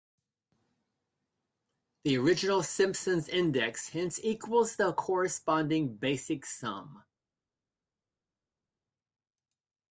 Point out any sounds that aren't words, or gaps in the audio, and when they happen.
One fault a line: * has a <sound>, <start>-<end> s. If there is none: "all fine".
all fine